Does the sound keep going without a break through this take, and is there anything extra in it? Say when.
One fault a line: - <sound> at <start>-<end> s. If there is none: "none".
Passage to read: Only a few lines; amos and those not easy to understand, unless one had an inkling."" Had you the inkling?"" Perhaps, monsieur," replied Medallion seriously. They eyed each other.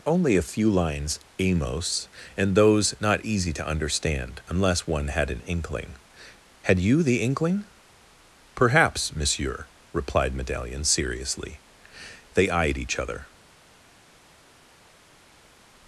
none